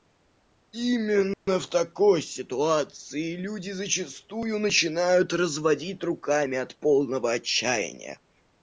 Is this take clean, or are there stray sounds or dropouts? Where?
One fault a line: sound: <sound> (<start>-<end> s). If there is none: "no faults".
sound: dropout (1.3-1.5 s)